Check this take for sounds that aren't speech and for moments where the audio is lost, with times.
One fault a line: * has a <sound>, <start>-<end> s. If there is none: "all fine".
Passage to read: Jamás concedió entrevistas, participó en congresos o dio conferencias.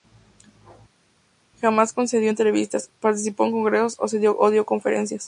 all fine